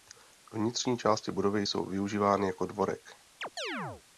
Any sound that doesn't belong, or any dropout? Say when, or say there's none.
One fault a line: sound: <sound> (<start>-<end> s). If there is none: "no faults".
sound: chirp (3.4-4.0 s)